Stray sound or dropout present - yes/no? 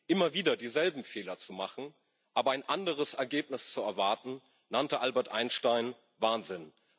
no